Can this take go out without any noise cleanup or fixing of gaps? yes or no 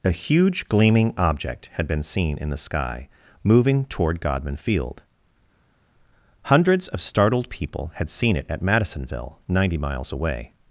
yes